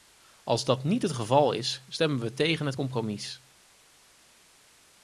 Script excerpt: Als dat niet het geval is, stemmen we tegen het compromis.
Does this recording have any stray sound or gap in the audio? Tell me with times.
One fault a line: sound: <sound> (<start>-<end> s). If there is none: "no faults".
no faults